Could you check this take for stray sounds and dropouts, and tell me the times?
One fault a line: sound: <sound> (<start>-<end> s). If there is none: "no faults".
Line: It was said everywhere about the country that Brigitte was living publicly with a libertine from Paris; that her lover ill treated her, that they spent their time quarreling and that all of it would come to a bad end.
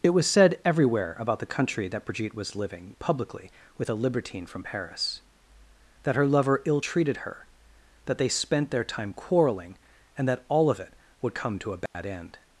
sound: dropout (11.9-11.9 s)